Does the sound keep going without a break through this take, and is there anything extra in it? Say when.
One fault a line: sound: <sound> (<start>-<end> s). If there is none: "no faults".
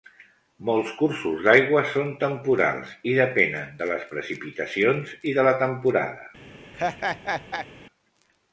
sound: laugh (6.7-7.7 s)